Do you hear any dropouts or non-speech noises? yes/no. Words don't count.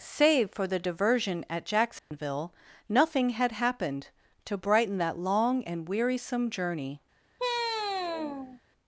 yes